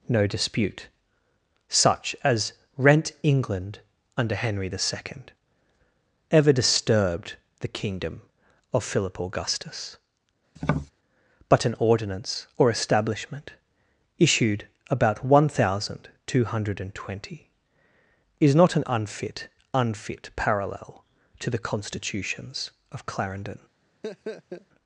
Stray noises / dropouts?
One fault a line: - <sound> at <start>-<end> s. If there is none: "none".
- tap at 10.6-10.9 s
- laugh at 24.0-24.7 s